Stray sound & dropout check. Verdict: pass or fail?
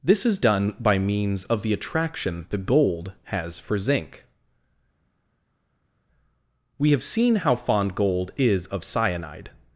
pass